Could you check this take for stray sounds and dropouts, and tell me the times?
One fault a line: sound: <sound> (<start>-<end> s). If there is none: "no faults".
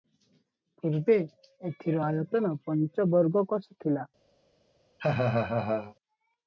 sound: laugh (5.0-5.9 s)